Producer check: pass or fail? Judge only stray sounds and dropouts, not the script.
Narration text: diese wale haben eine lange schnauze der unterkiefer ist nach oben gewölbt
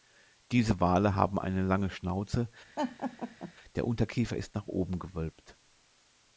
fail